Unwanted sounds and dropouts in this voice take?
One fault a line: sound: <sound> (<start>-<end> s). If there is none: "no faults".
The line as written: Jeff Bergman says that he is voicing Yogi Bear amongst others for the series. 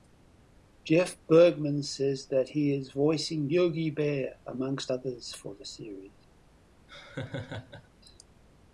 sound: laugh (6.9-7.9 s)